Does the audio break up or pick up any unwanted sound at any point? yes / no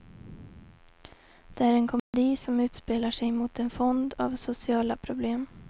yes